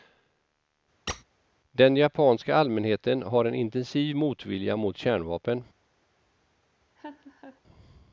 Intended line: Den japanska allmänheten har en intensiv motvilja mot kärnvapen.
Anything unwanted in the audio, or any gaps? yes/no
yes